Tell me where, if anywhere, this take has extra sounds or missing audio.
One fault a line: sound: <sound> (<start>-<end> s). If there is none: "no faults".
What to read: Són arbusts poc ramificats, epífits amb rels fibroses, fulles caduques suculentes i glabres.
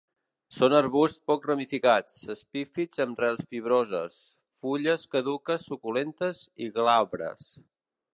no faults